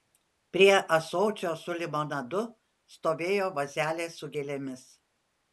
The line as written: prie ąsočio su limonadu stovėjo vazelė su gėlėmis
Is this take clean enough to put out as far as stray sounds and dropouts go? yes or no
yes